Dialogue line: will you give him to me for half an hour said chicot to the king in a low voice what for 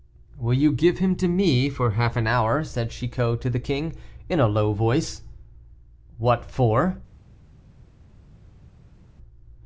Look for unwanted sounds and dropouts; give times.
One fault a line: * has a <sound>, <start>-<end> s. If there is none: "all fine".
all fine